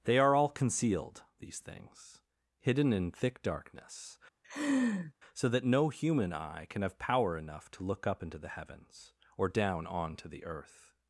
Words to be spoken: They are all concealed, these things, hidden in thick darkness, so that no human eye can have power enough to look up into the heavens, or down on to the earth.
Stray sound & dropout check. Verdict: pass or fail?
fail